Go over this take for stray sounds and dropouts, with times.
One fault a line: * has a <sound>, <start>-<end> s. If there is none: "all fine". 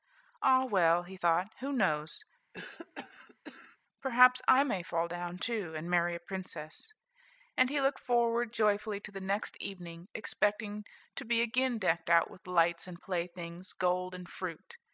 * has a cough, 2.5-3.8 s